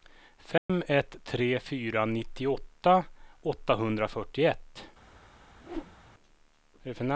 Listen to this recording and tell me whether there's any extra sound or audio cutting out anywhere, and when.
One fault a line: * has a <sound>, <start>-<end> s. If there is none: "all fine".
* has a dropout, 0.6-0.7 s
* has a whoosh, 5.6-6.0 s